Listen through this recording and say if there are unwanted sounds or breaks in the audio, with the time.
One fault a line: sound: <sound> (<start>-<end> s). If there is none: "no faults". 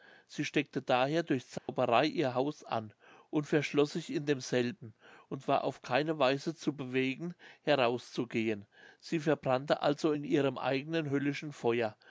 sound: dropout (1.6-1.7 s)